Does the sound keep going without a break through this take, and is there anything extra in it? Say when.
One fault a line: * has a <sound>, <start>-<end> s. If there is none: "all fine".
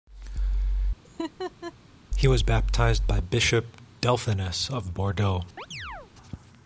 * has a laugh, 1.0-1.7 s
* has a chirp, 5.6-6.1 s